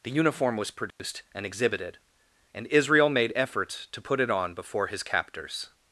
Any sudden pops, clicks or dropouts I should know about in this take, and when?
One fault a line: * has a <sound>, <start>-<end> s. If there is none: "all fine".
* has a dropout, 0.9-1.0 s